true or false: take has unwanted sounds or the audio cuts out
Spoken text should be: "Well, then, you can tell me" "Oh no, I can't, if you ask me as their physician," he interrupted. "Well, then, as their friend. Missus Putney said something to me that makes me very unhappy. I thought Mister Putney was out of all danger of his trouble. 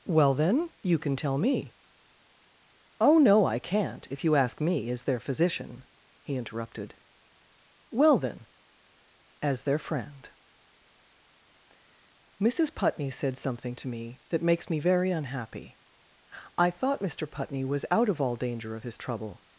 false